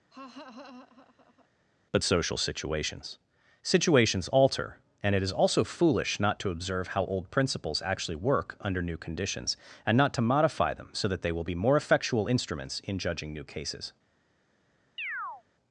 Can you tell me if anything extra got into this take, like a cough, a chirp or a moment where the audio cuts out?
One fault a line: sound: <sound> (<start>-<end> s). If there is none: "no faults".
sound: laugh (0.1-1.5 s)
sound: chirp (15.0-15.4 s)